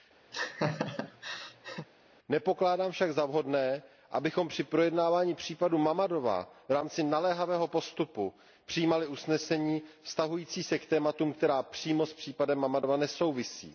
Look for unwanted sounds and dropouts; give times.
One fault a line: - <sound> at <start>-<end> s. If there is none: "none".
- laugh at 0.3-1.9 s